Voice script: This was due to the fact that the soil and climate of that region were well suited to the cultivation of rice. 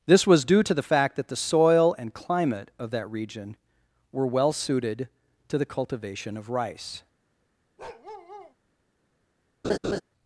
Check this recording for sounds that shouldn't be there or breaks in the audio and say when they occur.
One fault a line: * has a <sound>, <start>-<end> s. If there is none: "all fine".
* has a bark, 7.8-8.5 s
* has a laugh, 9.6-10.0 s